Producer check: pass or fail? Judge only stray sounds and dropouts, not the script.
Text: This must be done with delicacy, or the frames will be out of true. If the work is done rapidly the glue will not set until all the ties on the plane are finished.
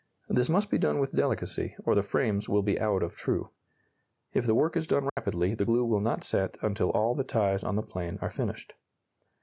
fail